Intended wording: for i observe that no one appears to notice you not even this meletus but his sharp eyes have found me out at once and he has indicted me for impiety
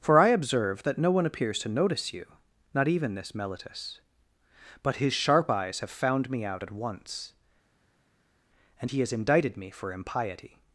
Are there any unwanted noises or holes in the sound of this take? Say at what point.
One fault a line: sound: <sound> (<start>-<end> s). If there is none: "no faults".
no faults